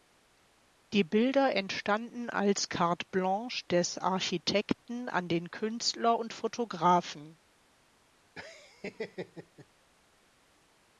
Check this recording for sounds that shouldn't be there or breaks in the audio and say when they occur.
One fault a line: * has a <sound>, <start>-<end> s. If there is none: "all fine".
* has a laugh, 8.4-9.7 s